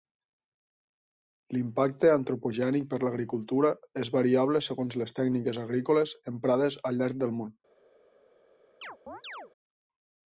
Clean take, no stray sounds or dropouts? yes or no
no